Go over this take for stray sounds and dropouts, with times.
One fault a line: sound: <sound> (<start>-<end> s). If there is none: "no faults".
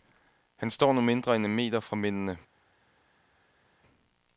no faults